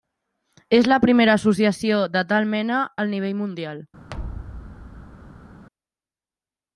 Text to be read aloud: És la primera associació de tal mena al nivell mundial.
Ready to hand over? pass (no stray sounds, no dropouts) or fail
fail